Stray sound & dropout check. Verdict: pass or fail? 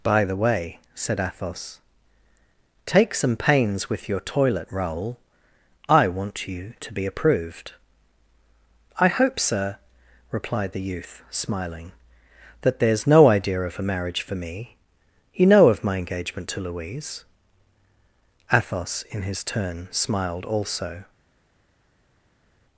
pass